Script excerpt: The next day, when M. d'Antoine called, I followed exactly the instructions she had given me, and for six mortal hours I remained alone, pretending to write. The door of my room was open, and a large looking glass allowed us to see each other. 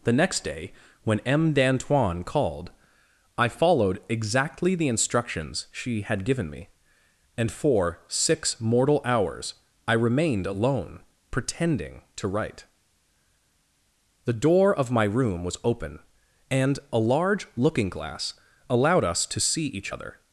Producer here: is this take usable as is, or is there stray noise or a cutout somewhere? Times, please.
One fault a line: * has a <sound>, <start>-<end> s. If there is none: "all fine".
all fine